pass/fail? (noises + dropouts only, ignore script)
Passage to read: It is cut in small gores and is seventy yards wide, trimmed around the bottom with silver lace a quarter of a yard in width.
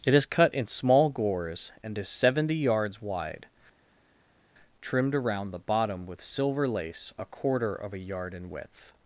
pass